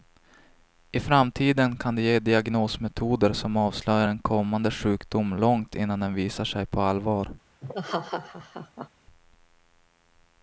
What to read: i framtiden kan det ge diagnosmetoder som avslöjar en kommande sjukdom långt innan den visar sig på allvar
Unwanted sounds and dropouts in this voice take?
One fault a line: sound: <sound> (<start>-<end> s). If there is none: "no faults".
sound: laugh (7.6-8.9 s)